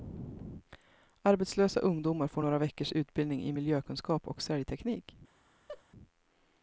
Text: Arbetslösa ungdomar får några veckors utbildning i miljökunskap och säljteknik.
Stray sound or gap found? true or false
true